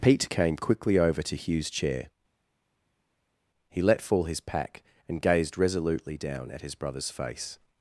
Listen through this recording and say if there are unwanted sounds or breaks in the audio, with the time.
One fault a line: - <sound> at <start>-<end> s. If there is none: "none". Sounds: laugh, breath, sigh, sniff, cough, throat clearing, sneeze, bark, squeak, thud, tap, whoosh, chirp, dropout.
none